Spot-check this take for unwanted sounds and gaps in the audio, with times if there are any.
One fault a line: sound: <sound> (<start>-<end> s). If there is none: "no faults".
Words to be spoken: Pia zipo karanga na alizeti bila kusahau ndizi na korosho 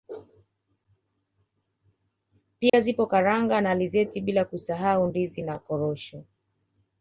sound: dropout (2.7-2.7 s)